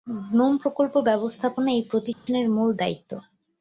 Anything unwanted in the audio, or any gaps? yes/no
yes